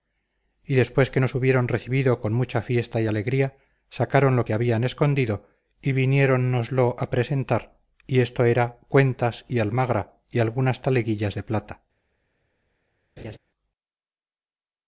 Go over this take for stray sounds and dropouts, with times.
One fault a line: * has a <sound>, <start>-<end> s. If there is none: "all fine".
* has a laugh, 13.2-13.4 s